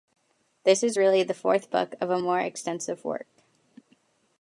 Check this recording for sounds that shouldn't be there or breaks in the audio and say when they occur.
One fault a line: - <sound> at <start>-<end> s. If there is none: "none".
none